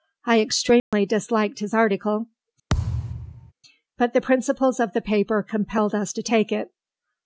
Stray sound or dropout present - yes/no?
yes